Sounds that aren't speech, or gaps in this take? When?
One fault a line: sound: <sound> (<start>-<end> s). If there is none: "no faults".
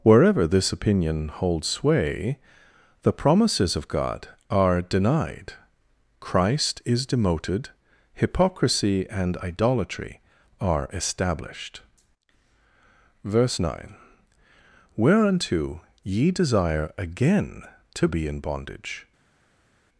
no faults